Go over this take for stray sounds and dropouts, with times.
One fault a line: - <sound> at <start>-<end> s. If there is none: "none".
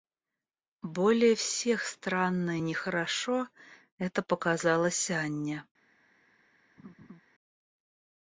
- laugh at 6.8-7.2 s